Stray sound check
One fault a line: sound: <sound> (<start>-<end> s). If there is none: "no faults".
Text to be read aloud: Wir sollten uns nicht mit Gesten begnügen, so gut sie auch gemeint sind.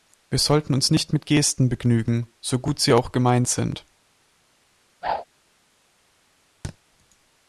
sound: whoosh (5.0-5.2 s)
sound: thud (6.6-6.8 s)